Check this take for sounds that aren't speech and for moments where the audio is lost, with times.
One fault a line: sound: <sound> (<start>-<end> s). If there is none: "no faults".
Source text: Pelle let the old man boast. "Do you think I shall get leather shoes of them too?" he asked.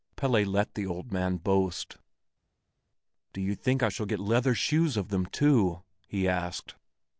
no faults